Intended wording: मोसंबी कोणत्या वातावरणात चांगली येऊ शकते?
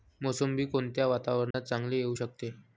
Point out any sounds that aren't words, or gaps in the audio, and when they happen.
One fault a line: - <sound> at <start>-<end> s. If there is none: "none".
- dropout at 1.5-1.5 s